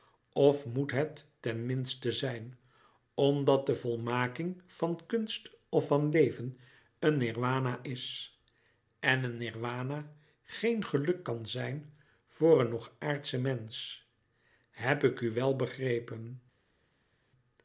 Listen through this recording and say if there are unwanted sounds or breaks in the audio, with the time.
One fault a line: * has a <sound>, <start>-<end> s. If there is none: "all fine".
all fine